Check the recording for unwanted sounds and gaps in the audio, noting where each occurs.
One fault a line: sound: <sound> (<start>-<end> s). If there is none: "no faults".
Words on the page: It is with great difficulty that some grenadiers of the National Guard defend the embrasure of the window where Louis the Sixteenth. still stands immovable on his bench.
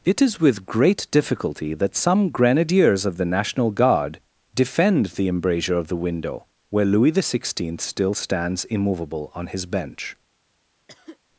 sound: cough (10.9-11.2 s)